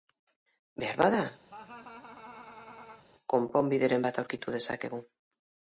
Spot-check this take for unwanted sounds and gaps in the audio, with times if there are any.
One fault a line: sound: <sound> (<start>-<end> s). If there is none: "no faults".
sound: laugh (1.5-3.0 s)